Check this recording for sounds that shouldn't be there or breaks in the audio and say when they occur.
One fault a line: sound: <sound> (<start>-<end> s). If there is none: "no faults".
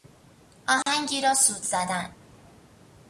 sound: dropout (0.8-0.9 s)